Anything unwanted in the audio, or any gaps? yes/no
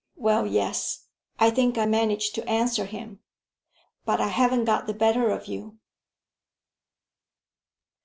no